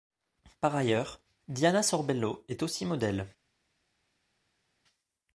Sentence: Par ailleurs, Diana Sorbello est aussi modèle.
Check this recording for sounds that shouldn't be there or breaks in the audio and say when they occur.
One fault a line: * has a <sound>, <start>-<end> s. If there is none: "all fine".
all fine